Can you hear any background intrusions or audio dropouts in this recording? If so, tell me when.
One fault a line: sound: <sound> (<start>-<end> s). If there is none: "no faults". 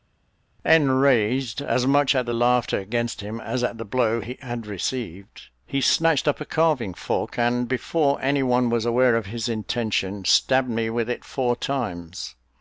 no faults